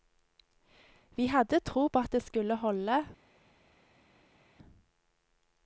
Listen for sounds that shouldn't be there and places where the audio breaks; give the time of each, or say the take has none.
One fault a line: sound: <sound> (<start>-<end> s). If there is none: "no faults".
no faults